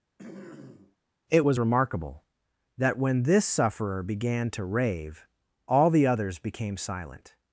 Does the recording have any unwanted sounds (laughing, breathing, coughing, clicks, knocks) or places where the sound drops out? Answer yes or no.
yes